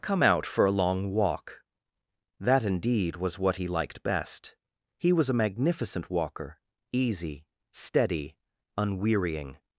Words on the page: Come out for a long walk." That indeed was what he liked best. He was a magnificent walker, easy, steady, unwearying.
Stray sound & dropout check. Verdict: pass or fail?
pass